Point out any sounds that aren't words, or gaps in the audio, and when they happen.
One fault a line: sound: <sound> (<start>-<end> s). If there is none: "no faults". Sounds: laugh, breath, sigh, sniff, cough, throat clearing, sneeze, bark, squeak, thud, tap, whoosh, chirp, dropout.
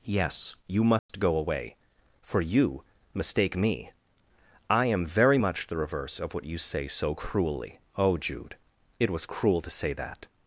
sound: dropout (1.0-1.1 s)